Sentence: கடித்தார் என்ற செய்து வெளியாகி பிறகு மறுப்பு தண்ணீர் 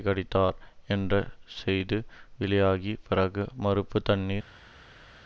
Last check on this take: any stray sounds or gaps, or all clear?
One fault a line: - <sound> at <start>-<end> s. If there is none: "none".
none